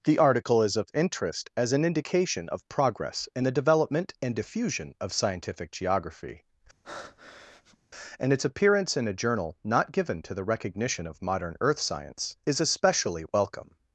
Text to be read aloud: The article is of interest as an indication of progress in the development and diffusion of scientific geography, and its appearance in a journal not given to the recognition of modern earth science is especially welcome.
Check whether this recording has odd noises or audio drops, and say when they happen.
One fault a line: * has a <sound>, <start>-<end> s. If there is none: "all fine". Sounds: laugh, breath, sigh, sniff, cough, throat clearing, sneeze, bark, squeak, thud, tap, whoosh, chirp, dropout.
* has a breath, 6.8-7.8 s